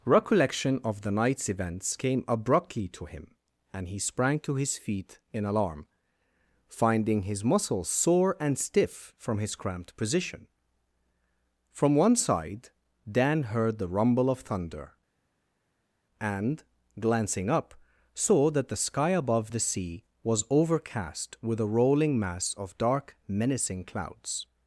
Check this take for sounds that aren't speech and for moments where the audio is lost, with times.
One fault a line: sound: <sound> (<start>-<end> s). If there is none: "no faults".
no faults